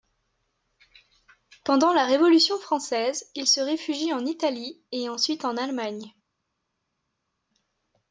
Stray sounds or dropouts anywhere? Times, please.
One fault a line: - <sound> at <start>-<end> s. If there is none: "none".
none